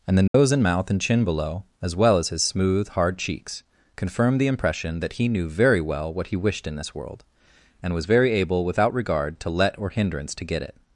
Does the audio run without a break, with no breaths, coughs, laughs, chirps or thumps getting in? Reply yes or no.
no